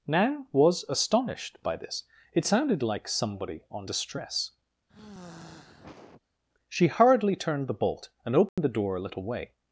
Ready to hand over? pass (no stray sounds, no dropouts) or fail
fail